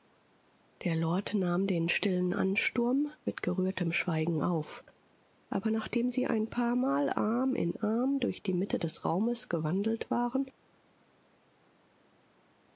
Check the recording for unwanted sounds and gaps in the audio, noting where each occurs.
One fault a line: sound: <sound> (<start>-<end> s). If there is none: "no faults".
no faults